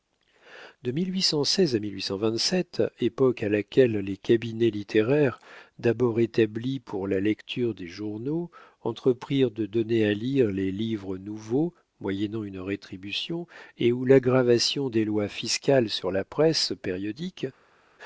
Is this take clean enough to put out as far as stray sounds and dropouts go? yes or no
yes